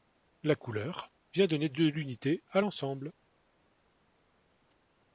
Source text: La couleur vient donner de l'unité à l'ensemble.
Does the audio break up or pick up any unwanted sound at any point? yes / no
no